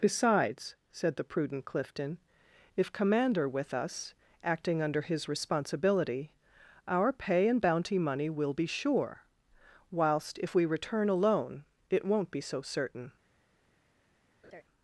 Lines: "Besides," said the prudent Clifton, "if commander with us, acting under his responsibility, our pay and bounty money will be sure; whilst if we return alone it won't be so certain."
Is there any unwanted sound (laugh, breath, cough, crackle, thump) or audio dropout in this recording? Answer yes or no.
yes